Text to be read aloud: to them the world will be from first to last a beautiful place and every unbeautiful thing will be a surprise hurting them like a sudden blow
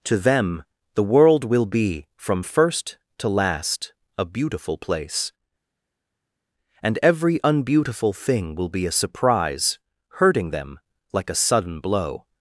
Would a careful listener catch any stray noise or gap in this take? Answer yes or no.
no